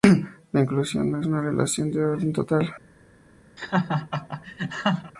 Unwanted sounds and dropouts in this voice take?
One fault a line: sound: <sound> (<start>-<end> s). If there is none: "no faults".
sound: laugh (3.6-5.1 s)